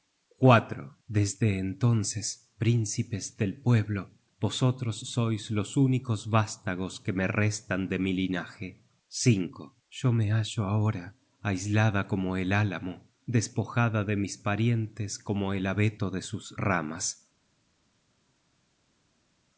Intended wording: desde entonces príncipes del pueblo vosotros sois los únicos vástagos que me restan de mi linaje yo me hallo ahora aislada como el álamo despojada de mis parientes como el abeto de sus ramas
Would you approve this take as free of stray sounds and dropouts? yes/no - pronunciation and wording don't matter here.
yes